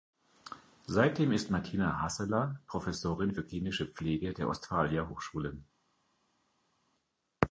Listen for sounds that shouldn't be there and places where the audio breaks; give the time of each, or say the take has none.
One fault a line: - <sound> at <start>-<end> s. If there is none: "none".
none